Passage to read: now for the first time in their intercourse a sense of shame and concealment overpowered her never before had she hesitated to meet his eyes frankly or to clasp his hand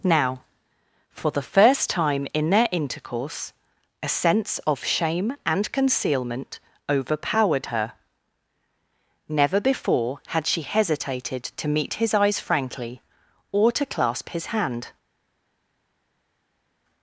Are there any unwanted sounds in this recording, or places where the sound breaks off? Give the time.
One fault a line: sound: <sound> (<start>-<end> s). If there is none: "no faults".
no faults